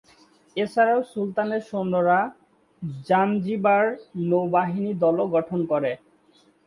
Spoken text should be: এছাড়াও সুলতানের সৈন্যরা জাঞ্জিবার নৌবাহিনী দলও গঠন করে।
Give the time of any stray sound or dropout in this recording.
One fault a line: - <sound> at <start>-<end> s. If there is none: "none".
none